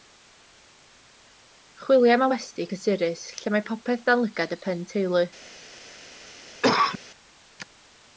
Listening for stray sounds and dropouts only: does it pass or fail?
fail